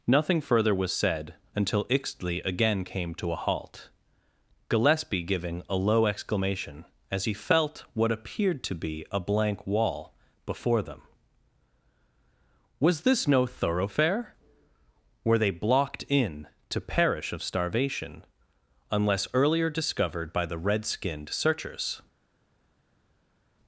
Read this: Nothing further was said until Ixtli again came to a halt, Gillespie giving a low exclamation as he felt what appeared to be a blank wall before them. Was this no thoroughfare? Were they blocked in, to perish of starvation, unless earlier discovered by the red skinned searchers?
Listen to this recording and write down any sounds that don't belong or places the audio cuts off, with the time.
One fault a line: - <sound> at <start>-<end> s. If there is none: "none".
none